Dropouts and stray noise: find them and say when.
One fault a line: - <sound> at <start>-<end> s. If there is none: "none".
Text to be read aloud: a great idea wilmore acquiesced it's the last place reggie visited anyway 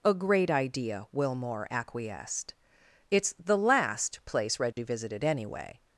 - dropout at 4.7-4.8 s